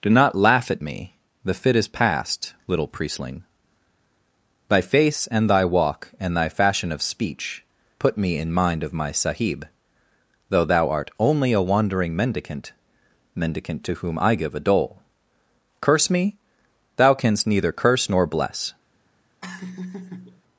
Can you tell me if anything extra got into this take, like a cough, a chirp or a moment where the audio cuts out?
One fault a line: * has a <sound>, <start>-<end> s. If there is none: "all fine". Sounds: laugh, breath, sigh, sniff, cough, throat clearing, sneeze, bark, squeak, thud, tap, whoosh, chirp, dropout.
* has a laugh, 19.4-20.4 s